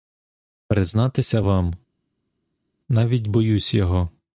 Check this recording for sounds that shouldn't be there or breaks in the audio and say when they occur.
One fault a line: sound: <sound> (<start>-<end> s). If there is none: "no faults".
no faults